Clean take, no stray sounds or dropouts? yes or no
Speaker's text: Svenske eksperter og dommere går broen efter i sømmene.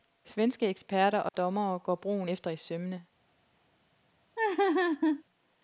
no